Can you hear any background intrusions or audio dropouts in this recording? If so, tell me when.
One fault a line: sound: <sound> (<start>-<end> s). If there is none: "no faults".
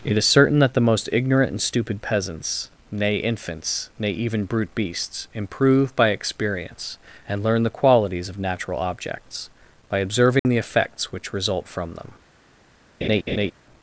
sound: dropout (10.4-10.5 s)
sound: laugh (13.0-13.5 s)